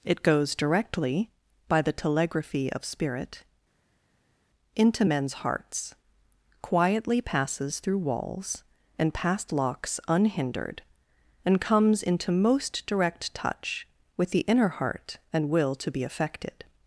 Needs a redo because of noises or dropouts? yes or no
no